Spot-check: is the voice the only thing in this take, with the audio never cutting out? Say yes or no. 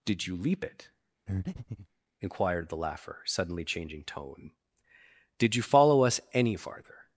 no